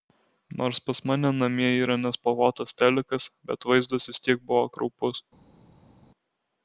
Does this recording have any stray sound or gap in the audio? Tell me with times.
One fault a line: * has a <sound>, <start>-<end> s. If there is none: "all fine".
all fine